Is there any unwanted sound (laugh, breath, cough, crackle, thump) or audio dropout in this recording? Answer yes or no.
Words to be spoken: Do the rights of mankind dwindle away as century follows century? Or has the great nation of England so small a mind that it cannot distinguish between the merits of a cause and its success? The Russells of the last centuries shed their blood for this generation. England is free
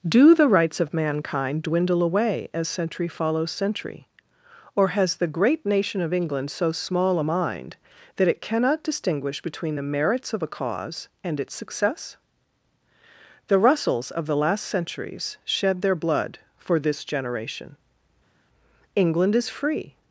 no